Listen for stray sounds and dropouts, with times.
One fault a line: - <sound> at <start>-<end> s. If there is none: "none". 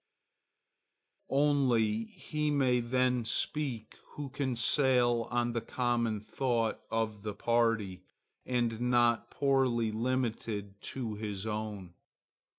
none